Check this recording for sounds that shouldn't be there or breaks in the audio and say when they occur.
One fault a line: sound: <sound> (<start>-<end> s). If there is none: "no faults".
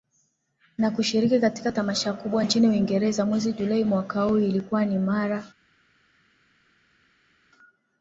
no faults